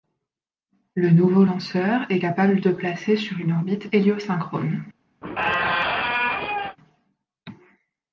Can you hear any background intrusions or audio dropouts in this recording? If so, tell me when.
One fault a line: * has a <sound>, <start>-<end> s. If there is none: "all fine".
* has a squeak, 5.2-6.8 s